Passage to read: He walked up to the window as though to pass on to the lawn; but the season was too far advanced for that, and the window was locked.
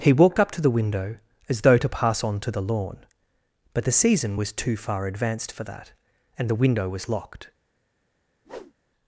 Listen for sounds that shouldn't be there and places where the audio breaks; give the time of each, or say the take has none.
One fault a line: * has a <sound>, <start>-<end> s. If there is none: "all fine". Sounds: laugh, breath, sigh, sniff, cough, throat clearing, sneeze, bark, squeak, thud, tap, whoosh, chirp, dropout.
* has a whoosh, 8.4-8.7 s